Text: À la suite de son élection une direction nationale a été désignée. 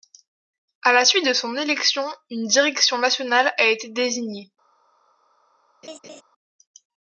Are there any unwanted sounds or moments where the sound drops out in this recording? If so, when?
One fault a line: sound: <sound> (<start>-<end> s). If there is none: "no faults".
sound: laugh (5.8-6.2 s)